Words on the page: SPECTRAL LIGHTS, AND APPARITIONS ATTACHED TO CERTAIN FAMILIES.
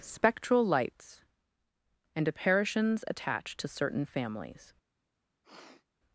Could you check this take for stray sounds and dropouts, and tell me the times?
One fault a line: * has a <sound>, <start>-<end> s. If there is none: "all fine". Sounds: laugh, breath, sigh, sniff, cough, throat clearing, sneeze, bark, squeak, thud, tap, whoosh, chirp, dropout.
* has a sniff, 5.4-5.8 s